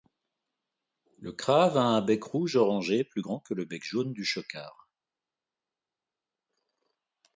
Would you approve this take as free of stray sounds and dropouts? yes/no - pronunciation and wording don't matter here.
yes